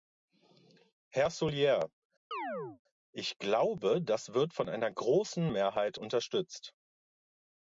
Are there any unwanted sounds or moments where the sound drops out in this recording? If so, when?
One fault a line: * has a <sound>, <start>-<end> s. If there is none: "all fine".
* has a chirp, 2.3-2.8 s